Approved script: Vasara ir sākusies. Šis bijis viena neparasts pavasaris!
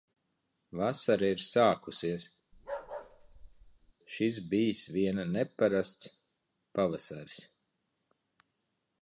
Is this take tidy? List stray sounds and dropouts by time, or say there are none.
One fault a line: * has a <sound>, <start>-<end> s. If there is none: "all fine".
* has a bark, 2.5-3.9 s